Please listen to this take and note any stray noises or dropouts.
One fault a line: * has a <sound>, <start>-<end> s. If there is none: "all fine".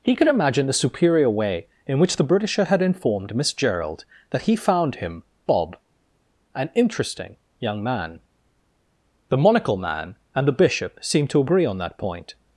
all fine